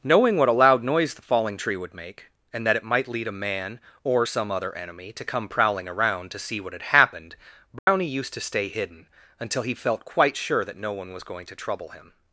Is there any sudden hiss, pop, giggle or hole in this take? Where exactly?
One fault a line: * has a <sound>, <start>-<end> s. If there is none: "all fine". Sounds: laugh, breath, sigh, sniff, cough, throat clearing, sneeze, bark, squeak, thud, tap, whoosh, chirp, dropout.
* has a dropout, 7.8-7.9 s